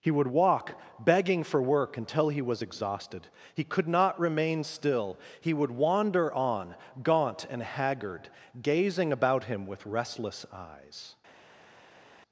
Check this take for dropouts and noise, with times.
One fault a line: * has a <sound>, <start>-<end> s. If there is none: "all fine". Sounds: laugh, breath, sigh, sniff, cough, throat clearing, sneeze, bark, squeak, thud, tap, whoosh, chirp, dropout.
all fine